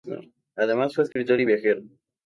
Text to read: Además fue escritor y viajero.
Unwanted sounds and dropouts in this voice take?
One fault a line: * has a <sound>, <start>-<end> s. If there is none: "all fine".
* has a dropout, 1.1-1.2 s